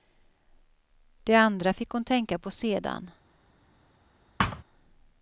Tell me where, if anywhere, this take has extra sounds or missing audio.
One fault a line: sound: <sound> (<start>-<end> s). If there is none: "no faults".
sound: thud (4.4-4.6 s)